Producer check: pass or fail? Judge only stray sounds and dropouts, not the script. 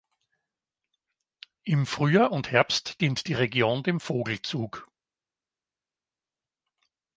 pass